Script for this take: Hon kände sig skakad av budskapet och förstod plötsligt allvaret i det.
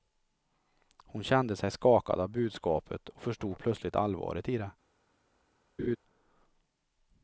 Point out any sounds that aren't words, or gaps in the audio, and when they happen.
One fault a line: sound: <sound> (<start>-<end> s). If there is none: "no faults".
sound: laugh (5.8-6.0 s)